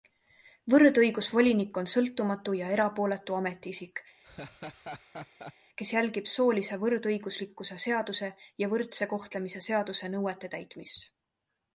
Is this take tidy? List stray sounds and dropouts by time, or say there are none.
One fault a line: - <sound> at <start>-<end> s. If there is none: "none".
- laugh at 4.2-5.5 s